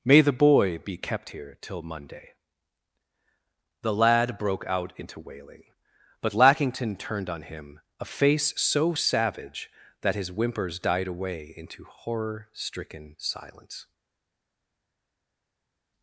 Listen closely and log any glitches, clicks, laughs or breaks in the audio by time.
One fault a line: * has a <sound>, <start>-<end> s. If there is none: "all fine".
all fine